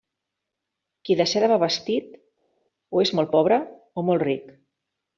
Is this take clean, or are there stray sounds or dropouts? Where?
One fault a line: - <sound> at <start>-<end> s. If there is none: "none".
none